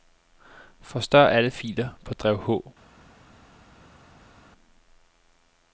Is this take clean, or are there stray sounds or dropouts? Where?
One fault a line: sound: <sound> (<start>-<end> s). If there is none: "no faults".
no faults